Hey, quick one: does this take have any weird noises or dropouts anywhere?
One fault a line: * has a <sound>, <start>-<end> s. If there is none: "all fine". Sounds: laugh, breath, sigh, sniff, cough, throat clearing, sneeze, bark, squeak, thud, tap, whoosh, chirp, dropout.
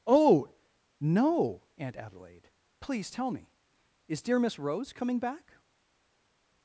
all fine